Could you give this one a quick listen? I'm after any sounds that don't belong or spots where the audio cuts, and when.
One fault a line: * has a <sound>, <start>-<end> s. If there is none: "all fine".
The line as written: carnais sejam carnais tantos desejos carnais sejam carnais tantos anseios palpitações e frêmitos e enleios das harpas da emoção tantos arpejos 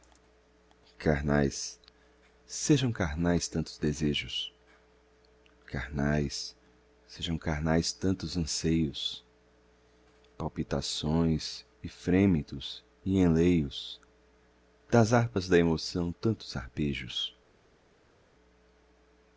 all fine